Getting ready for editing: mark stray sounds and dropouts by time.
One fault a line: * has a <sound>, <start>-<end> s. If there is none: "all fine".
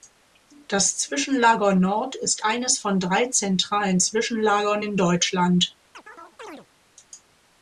* has a chirp, 5.9-6.7 s